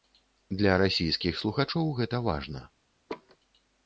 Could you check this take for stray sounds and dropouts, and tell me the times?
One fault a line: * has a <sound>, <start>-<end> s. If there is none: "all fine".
* has a laugh, 3.1-3.4 s